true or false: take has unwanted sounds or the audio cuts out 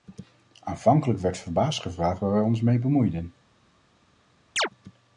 true